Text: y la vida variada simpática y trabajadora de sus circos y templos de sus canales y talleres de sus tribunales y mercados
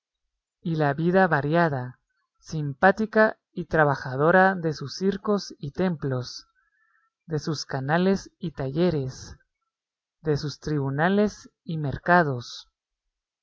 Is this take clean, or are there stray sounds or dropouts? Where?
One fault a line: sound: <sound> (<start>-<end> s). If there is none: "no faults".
no faults